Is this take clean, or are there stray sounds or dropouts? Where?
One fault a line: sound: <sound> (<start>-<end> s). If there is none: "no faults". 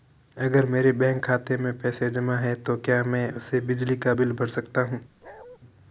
sound: bark (5.2-5.6 s)